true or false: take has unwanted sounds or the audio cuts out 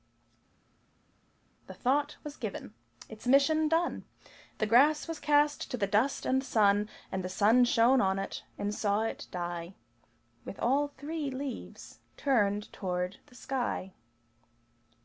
false